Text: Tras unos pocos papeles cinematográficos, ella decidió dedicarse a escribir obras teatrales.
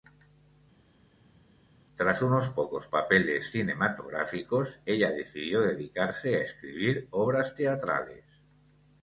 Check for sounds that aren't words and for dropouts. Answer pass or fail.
pass